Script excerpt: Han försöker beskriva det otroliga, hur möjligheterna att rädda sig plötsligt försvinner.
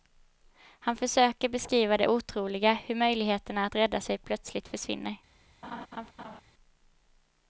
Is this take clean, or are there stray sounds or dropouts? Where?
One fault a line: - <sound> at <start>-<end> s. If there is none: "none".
- laugh at 5.6-6.4 s